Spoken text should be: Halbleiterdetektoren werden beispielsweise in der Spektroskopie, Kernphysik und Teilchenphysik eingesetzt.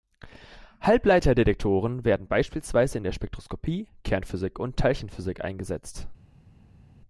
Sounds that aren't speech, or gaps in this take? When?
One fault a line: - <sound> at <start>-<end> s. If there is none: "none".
none